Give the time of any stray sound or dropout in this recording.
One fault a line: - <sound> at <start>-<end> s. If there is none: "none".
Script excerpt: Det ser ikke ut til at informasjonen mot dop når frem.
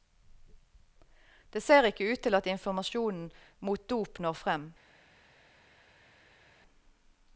none